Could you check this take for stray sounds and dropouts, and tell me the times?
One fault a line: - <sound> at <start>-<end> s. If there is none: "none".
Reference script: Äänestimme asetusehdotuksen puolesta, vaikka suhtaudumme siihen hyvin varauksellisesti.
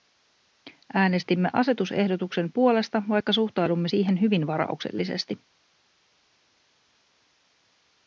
none